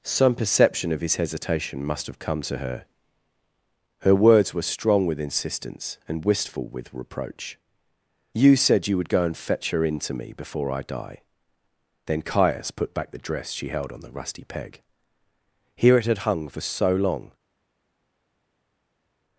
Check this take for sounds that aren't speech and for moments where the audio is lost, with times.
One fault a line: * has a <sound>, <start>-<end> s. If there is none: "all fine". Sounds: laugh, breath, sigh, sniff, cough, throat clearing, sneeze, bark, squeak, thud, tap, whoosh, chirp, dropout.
all fine